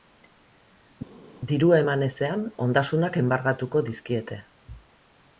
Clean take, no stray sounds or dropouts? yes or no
yes